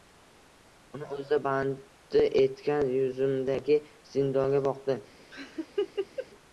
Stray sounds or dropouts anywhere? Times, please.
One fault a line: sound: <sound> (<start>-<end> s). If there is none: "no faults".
sound: laugh (5.3-6.3 s)